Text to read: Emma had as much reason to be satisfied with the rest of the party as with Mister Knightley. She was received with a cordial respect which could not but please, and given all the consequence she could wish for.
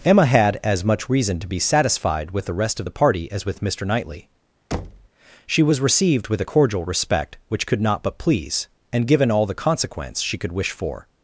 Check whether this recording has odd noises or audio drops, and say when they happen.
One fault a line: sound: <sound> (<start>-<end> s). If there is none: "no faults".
sound: thud (4.7-5.1 s)